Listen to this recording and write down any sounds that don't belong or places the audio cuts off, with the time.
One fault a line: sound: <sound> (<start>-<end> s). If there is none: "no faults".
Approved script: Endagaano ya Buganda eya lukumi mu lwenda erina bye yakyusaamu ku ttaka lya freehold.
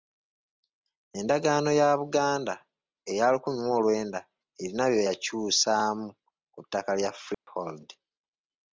sound: dropout (7.3-7.5 s)